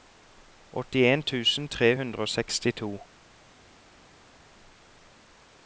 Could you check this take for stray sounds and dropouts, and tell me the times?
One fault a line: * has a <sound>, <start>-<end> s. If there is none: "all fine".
all fine